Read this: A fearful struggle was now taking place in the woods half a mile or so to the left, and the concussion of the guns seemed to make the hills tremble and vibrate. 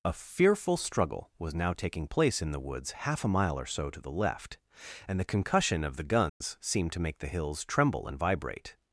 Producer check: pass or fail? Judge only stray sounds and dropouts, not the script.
fail